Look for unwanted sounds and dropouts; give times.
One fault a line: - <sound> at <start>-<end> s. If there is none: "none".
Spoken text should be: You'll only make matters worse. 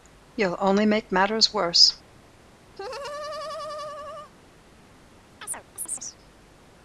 - laugh at 2.8-4.3 s
- chirp at 5.4-6.2 s